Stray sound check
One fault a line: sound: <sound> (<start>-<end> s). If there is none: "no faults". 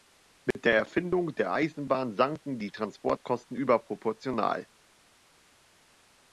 sound: dropout (0.5-0.5 s)